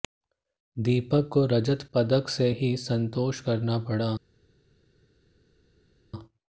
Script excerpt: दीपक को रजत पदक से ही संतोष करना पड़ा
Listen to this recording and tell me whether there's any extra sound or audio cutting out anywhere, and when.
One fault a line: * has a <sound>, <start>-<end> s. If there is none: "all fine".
all fine